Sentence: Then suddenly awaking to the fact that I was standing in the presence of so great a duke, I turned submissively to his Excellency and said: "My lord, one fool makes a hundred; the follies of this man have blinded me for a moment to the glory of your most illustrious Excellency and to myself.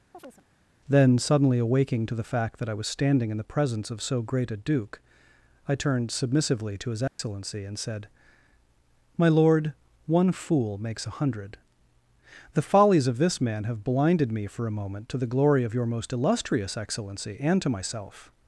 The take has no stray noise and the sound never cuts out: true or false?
false